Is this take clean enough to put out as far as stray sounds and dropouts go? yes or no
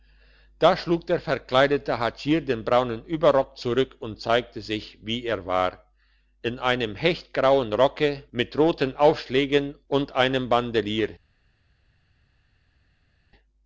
yes